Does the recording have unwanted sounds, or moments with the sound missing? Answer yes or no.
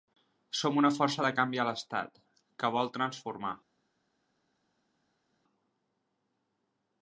no